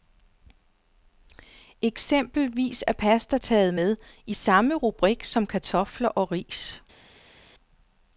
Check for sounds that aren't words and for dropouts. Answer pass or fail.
pass